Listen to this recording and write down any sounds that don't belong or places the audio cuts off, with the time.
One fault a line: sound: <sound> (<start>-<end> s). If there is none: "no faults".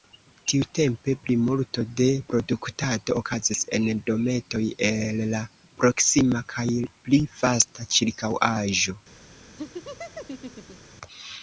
sound: laugh (9.6-11.0 s)